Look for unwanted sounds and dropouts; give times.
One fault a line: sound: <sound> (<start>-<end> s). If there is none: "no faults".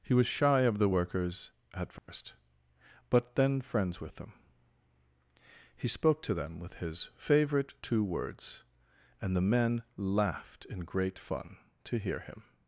sound: dropout (2.0-2.1 s)